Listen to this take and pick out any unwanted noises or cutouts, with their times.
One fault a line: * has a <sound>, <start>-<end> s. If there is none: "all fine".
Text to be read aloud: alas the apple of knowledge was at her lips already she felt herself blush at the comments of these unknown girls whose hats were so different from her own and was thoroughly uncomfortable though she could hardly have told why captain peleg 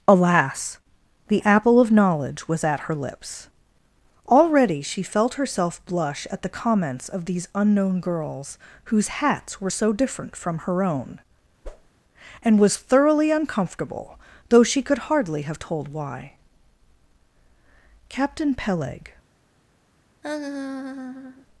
* has a whoosh, 11.6-11.9 s
* has a laugh, 20.2-21.5 s